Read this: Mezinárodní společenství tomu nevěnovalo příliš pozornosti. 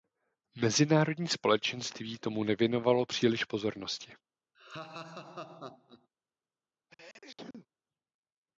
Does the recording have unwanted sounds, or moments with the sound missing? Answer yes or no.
yes